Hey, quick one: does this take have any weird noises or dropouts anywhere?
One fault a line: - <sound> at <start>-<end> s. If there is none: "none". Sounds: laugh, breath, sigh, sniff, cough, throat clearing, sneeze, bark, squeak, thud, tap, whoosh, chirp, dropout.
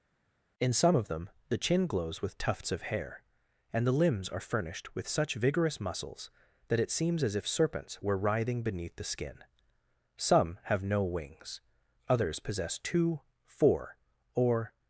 none